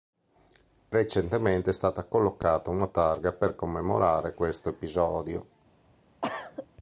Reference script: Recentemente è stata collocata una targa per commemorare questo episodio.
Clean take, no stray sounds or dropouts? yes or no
no